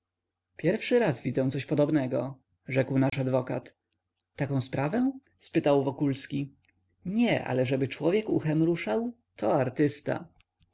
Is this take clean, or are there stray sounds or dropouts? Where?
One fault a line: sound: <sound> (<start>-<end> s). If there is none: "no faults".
sound: dropout (3.1-3.1 s)